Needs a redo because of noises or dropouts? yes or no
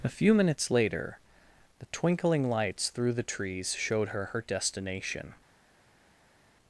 no